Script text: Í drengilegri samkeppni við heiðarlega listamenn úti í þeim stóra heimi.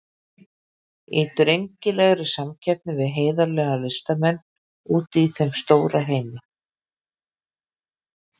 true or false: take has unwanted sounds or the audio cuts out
false